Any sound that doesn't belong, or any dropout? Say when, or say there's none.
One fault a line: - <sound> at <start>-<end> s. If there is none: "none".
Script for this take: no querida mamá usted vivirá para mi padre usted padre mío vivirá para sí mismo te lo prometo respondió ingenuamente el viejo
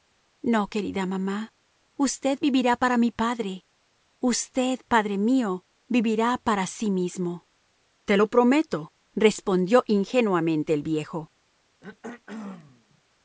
- throat clearing at 11.8-13.0 s